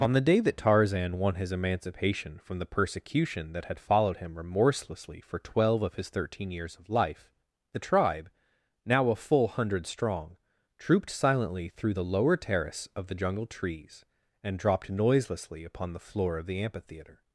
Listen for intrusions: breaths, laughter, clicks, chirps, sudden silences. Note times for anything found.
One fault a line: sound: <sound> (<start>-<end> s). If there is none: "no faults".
no faults